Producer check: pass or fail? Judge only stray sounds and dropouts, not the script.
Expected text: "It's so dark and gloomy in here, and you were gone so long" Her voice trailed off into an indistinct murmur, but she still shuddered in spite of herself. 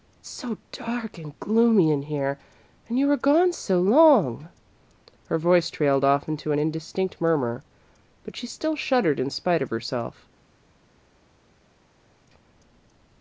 pass